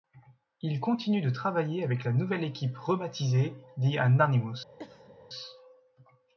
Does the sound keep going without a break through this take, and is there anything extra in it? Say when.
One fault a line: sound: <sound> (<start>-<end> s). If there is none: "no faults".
sound: cough (4.8-5.2 s)